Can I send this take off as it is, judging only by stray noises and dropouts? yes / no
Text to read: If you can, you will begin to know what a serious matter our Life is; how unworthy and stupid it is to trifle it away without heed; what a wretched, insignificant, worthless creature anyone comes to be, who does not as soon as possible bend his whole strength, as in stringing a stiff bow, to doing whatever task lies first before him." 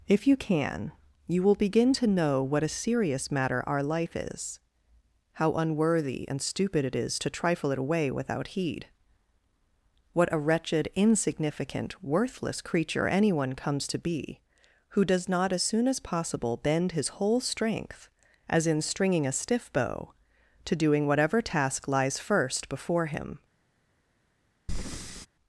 no